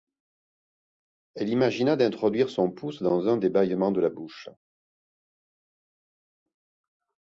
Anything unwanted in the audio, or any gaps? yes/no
no